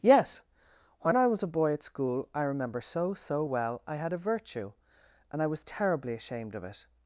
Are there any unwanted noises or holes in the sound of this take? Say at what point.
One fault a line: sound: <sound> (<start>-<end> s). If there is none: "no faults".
no faults